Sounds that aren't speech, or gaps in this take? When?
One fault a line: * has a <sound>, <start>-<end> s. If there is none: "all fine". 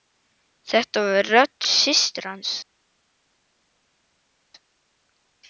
all fine